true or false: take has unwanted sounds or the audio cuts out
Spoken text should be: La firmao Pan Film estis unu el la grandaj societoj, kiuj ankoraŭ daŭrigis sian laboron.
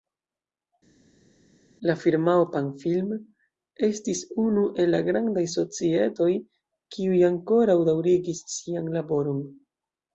false